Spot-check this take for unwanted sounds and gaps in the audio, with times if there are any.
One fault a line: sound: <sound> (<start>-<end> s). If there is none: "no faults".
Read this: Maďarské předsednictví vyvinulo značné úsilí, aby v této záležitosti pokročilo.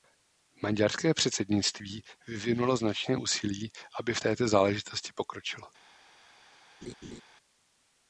sound: laugh (6.8-7.2 s)